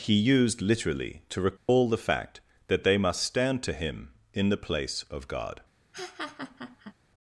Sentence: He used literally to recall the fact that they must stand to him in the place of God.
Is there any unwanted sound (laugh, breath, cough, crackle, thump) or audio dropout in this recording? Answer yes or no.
yes